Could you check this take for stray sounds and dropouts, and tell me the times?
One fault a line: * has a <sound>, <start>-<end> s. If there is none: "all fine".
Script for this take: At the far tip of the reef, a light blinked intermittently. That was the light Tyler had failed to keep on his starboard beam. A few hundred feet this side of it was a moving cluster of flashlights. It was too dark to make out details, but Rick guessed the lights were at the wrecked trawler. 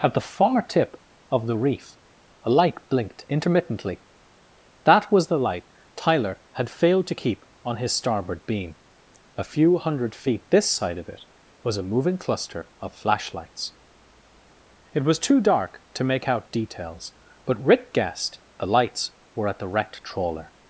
all fine